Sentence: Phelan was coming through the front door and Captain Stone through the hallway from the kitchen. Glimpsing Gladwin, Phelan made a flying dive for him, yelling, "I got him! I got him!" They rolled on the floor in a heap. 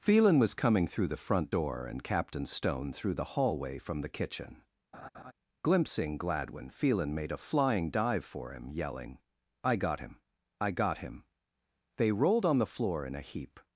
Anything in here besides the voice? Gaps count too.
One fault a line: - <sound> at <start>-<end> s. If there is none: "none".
- laugh at 4.9-5.3 s